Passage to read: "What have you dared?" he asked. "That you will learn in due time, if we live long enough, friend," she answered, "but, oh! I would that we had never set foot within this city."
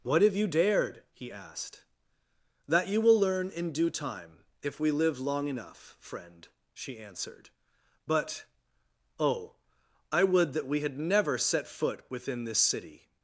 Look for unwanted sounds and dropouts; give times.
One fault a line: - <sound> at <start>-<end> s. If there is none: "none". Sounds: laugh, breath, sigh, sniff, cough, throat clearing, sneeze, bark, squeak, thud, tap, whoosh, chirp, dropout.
none